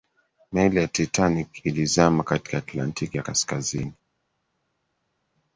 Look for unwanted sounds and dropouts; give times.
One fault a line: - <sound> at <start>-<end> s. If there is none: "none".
none